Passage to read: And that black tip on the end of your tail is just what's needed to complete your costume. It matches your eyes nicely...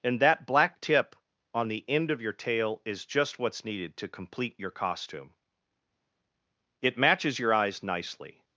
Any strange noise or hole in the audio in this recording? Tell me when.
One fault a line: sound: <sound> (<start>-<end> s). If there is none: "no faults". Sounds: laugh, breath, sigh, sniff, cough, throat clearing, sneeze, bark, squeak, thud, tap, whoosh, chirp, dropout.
no faults